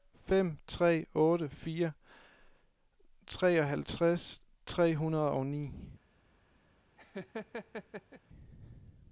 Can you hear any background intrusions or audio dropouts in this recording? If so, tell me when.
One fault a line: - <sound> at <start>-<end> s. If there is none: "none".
- laugh at 7.0-8.2 s